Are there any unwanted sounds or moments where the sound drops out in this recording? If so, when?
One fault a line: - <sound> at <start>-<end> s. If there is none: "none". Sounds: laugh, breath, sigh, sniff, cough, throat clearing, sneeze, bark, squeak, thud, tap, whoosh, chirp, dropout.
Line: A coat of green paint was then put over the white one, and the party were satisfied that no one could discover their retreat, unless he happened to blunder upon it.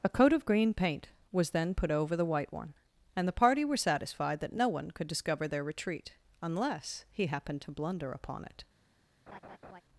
- laugh at 9.3-9.8 s